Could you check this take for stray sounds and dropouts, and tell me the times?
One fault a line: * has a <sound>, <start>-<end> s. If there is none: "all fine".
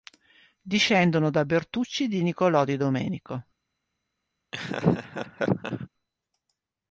* has a laugh, 4.5-5.9 s